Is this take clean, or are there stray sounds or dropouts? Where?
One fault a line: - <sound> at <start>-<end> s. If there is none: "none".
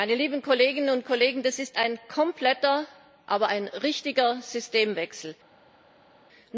none